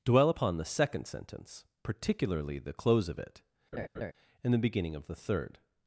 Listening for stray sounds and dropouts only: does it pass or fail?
fail